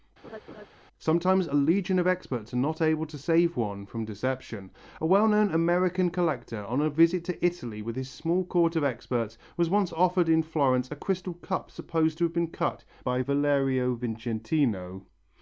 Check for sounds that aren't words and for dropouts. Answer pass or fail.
fail